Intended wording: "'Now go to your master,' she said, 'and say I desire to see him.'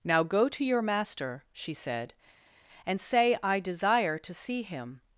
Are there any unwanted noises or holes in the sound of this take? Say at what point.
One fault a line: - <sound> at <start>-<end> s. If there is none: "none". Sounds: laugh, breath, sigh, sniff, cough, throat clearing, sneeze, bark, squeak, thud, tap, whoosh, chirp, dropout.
none